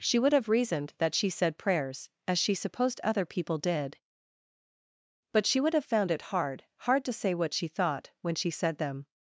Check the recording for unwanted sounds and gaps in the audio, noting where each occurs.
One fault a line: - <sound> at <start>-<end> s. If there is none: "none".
none